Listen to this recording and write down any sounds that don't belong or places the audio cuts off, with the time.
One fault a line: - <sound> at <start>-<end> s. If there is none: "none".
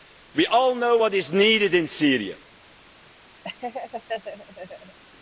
- laugh at 3.4-5.0 s